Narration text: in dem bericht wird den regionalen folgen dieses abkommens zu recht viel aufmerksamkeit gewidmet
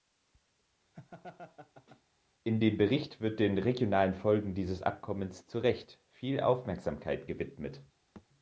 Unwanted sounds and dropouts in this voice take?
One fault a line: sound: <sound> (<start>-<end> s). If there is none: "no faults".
sound: laugh (0.9-2.0 s)
sound: thud (8.2-8.3 s)